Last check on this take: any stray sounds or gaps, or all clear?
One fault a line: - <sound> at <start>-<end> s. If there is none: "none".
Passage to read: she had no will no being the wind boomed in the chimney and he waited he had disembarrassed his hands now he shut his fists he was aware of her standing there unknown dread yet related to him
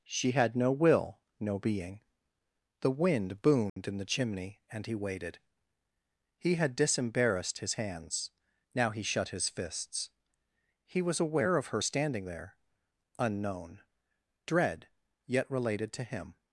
- dropout at 3.7-3.8 s